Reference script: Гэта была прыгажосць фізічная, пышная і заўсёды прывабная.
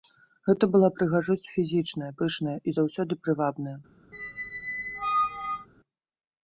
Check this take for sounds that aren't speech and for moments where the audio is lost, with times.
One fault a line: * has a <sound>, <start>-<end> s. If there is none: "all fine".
* has a squeak, 4.1-5.7 s